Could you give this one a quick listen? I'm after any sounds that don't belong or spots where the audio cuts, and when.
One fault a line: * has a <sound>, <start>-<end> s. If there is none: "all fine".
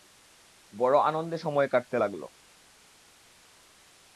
all fine